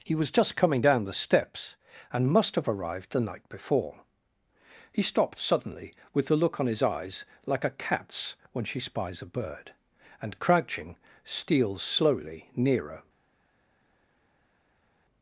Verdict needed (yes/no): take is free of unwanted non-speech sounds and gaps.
yes